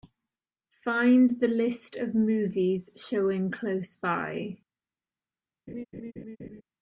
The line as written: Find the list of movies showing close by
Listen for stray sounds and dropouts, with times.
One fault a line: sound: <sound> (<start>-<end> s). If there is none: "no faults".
sound: laugh (5.7-6.6 s)